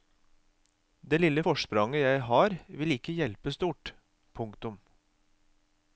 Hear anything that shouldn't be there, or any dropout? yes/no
no